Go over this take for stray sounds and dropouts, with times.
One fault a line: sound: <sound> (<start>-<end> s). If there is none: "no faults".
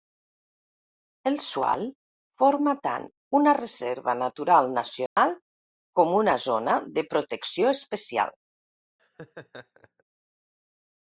sound: dropout (5.1-5.2 s)
sound: laugh (9.0-10.0 s)